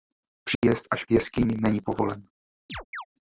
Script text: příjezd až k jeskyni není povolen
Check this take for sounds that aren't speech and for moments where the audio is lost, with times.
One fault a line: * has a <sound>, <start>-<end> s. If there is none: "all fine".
* has a dropout, 0.5-0.6 s
* has a chirp, 2.7-3.1 s